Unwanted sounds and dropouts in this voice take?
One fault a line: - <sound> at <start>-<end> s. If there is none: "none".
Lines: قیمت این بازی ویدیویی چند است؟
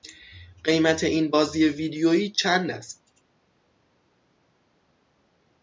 none